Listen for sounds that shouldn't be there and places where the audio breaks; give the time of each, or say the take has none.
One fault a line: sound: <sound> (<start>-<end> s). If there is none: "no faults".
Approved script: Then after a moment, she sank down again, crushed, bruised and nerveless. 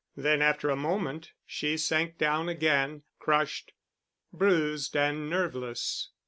no faults